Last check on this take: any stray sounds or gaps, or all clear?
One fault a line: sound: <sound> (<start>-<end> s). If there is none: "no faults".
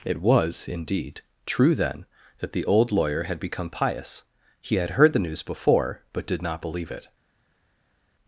no faults